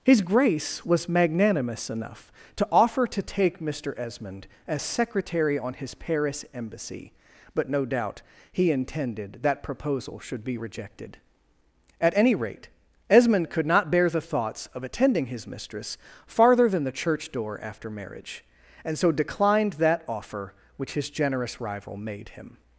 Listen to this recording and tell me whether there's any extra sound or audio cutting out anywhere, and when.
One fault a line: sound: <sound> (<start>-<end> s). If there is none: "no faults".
no faults